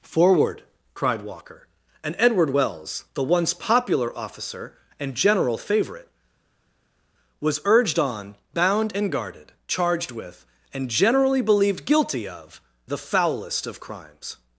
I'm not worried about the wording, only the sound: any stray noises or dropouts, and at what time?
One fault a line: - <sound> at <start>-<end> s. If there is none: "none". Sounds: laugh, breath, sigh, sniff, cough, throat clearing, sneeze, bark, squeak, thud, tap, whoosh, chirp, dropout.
none